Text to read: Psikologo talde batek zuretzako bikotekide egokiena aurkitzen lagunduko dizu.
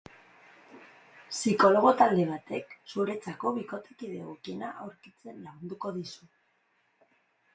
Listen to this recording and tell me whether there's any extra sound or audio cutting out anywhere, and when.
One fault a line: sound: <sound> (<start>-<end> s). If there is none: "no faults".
no faults